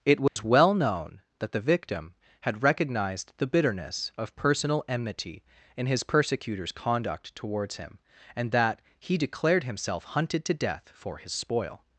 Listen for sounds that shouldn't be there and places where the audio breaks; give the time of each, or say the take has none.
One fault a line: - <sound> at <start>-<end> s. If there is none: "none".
- dropout at 0.3-0.4 s